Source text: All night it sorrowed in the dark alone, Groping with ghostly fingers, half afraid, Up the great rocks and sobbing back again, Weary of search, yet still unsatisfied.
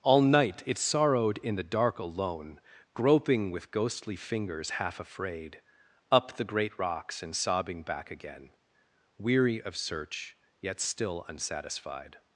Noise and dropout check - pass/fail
pass